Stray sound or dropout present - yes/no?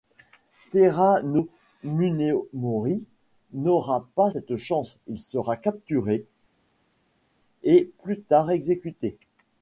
no